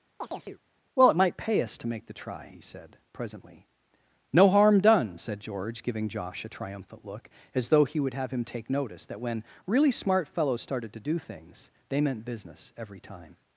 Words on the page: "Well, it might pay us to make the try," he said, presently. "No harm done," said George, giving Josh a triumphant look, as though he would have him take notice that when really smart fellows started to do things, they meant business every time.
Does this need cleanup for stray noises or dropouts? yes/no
yes